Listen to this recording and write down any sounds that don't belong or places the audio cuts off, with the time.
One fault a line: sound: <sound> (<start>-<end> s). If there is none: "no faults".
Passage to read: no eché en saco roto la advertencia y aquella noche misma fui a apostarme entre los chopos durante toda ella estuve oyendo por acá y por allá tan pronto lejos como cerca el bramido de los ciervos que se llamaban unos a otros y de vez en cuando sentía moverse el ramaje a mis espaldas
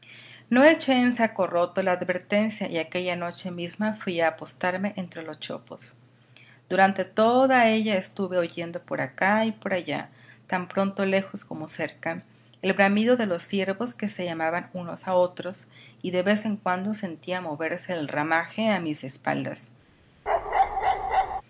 sound: bark (20.3-21.4 s)